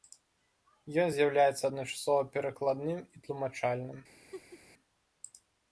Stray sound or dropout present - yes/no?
yes